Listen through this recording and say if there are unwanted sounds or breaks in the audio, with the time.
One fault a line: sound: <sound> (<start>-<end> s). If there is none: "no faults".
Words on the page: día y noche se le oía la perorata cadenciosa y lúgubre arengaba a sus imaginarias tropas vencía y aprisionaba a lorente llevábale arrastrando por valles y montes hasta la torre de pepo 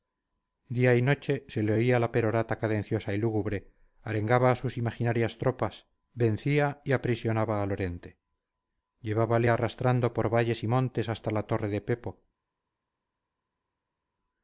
no faults